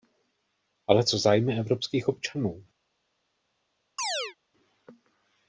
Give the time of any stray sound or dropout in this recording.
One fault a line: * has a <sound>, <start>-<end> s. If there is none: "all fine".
* has a chirp, 4.0-4.4 s